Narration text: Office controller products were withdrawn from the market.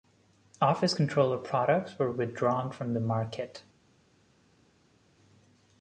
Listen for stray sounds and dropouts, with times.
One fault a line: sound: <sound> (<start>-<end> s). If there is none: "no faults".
no faults